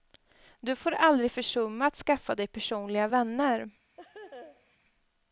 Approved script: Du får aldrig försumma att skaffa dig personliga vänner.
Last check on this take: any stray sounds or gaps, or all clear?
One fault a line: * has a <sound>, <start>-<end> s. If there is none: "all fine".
* has a laugh, 4.0-4.8 s